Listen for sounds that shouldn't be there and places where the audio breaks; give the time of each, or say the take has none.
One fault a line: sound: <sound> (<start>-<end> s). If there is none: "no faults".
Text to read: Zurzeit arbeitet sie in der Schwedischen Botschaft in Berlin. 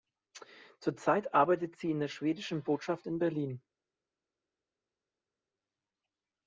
no faults